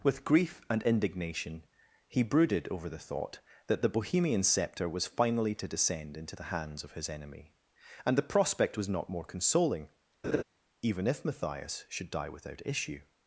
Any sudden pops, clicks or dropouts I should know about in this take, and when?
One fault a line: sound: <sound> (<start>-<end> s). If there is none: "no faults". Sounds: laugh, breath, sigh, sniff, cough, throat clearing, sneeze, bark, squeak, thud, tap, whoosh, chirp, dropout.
sound: laugh (10.2-10.4 s)